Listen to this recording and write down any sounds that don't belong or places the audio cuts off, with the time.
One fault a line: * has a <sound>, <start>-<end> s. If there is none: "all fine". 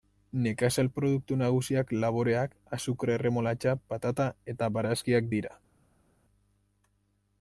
all fine